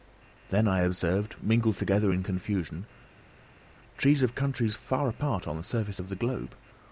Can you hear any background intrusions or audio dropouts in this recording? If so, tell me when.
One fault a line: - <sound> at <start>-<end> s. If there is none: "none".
none